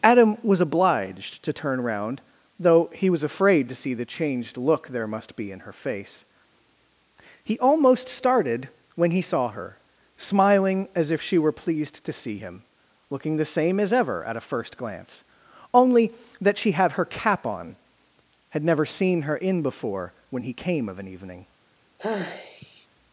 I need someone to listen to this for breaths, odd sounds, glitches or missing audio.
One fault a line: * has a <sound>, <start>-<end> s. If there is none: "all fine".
* has a sigh, 22.0-22.9 s